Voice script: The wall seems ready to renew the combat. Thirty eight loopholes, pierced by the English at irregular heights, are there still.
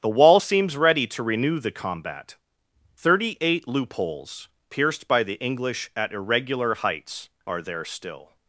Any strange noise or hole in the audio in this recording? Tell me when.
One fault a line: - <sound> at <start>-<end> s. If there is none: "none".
none